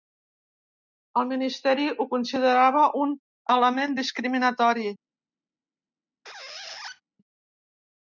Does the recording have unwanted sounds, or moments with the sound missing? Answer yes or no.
yes